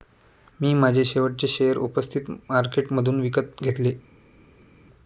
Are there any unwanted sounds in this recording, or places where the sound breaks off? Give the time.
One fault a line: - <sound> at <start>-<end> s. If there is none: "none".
none